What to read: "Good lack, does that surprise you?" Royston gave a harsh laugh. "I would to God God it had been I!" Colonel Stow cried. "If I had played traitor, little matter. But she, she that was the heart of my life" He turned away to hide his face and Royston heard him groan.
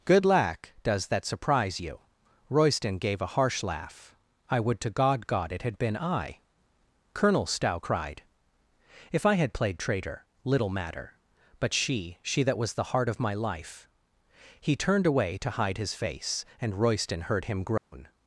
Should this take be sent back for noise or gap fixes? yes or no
yes